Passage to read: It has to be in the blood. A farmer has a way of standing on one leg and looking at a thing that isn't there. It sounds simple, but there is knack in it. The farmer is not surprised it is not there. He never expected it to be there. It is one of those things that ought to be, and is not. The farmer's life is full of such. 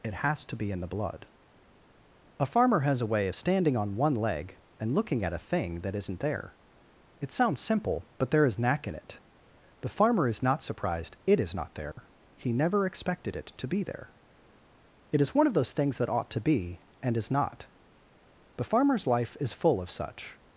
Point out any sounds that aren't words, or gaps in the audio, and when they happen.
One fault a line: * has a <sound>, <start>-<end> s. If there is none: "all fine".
* has a dropout, 11.9-12.0 s